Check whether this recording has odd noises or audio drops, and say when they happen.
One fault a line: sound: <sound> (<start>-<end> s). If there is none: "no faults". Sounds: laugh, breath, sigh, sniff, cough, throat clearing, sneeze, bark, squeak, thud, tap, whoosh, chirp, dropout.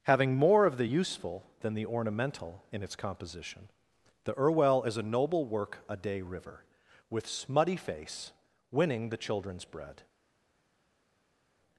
no faults